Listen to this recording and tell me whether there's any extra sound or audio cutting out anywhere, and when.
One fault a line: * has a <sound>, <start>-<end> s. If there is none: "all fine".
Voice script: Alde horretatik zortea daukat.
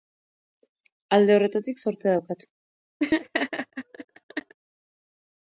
* has a laugh, 3.0-4.5 s